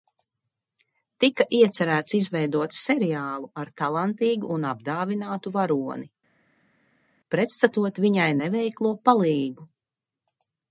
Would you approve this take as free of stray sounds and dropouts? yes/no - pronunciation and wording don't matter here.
yes